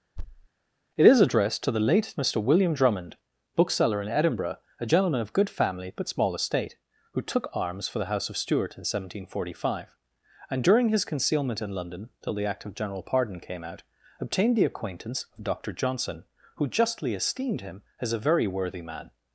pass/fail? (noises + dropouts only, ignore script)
fail